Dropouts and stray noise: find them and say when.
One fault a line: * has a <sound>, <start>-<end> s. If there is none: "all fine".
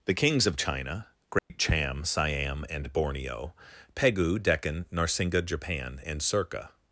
* has a dropout, 1.4-1.5 s